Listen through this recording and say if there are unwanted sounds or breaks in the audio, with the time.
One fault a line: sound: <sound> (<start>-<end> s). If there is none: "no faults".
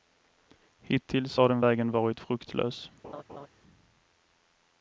sound: laugh (3.0-3.5 s)